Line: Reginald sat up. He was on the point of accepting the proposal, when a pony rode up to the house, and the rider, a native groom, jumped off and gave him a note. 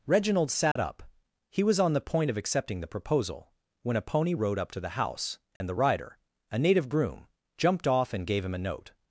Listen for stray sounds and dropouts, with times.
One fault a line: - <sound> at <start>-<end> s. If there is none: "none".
- dropout at 0.7-0.8 s
- dropout at 5.6-5.6 s